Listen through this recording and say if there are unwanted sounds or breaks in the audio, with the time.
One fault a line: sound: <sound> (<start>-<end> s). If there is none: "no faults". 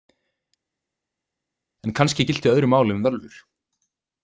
no faults